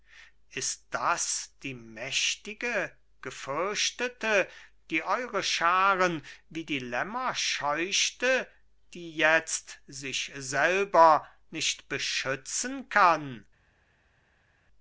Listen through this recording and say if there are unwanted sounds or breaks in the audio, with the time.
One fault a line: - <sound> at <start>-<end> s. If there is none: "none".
none